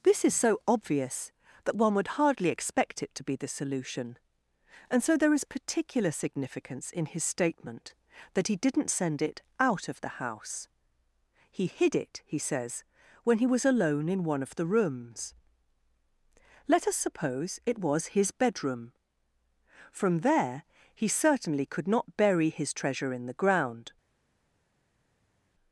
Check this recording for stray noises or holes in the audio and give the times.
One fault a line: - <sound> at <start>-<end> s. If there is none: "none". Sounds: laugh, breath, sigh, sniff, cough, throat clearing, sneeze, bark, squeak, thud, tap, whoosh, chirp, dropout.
none